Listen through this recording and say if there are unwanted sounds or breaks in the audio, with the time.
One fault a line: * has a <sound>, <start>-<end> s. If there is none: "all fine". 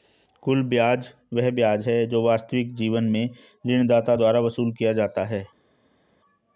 all fine